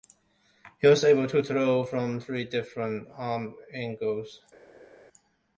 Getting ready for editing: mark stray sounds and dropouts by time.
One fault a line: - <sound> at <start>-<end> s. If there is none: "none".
none